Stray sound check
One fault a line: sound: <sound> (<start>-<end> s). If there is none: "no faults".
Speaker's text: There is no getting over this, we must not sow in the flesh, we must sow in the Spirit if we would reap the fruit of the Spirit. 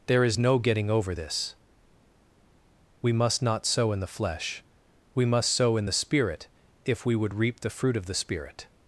no faults